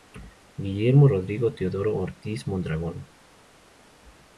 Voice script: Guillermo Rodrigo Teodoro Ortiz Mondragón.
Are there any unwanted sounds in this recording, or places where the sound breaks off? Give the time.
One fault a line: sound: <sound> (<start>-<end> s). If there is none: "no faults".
no faults